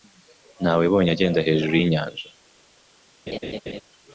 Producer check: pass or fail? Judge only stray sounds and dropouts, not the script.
fail